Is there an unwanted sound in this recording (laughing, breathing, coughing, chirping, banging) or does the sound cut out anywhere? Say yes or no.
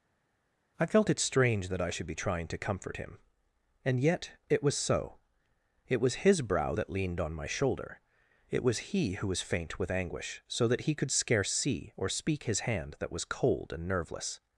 no